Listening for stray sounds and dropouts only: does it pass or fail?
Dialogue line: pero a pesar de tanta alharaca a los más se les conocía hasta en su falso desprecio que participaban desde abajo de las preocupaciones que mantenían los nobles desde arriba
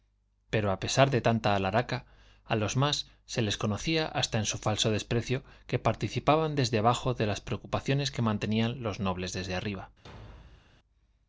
fail